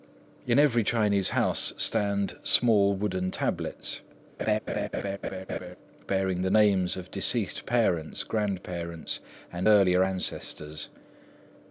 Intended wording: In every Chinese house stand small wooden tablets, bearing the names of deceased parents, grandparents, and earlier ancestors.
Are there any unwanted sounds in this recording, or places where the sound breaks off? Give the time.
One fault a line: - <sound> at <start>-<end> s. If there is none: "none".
- laugh at 4.4-5.8 s